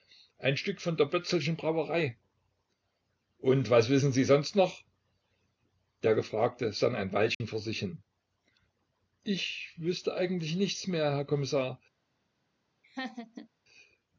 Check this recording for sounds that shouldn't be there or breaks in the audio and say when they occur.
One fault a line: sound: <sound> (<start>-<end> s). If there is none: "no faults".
sound: dropout (7.3-7.4 s)
sound: laugh (12.8-13.5 s)